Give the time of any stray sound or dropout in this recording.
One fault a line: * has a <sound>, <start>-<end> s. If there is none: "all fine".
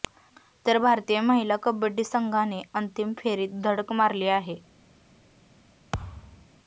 * has a thud, 5.9-6.5 s